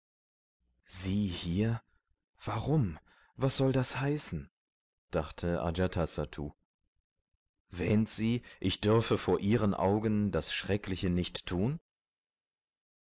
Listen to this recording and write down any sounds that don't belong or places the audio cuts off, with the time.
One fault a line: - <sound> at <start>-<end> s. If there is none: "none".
none